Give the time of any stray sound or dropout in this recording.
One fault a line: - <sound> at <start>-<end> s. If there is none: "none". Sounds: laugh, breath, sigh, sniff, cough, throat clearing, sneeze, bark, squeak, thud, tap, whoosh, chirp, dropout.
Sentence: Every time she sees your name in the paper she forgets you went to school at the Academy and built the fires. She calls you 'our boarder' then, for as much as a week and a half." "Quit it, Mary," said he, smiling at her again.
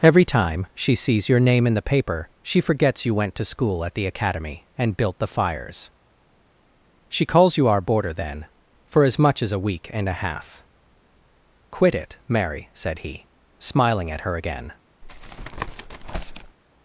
- tap at 15.0-16.6 s